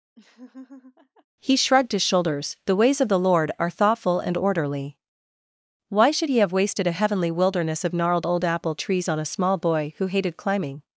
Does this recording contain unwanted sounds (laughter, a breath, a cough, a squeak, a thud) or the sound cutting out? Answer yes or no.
yes